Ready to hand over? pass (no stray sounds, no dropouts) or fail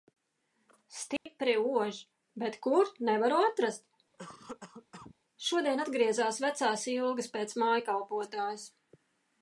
fail